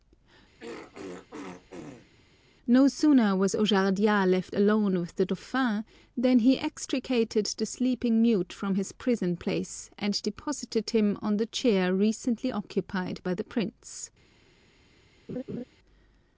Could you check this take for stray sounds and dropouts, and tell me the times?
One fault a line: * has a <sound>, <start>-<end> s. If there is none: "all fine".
* has a throat clearing, 0.6-2.1 s
* has a laugh, 15.3-15.6 s